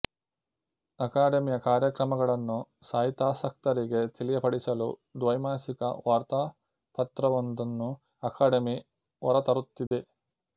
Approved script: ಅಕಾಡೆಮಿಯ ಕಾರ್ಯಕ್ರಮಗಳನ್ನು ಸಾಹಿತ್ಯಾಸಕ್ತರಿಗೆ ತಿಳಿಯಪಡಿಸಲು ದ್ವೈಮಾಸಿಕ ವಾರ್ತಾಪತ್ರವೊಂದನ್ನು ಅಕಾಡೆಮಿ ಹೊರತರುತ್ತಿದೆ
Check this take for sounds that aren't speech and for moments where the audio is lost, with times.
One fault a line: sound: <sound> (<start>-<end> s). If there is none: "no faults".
sound: dropout (9.9-9.9 s)